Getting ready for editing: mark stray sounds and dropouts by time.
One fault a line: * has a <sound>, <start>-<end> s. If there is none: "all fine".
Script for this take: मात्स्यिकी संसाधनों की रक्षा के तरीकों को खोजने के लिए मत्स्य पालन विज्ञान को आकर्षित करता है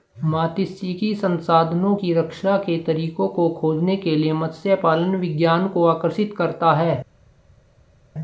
all fine